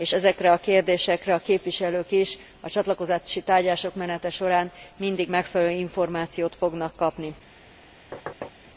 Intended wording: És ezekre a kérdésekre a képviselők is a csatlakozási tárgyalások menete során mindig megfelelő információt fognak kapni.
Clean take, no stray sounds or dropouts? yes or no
no